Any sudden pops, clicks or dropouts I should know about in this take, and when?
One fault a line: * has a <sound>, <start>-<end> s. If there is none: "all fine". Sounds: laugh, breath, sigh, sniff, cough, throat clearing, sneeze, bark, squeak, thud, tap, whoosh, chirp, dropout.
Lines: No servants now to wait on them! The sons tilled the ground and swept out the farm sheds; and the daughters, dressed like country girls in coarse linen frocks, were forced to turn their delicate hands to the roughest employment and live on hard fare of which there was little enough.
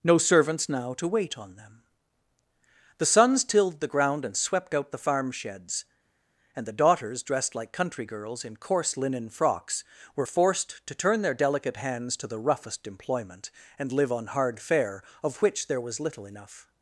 all fine